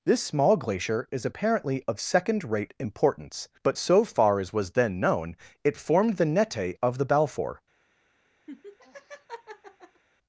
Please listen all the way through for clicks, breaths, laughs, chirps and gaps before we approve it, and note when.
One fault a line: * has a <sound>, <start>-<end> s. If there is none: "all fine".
* has a laugh, 8.5-10.0 s